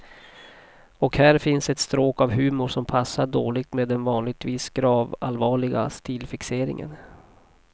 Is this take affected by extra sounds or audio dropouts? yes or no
no